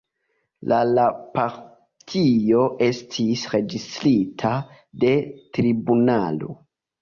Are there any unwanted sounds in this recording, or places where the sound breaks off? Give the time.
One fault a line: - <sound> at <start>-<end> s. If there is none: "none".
none